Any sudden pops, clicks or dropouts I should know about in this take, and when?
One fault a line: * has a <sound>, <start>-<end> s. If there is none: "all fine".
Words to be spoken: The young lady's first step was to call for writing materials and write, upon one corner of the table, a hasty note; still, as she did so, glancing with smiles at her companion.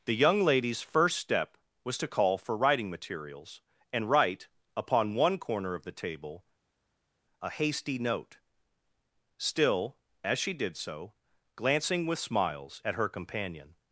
all fine